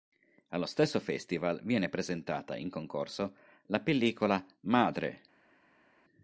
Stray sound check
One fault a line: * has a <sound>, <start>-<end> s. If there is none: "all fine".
all fine